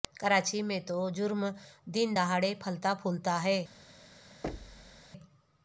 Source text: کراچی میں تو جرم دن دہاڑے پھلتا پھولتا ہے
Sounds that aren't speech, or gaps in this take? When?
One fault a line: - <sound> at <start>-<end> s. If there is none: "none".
- thud at 4.4-5.1 s